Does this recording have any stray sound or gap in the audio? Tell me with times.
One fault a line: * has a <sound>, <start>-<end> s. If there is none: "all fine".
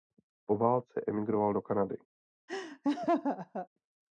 * has a laugh, 2.5-3.7 s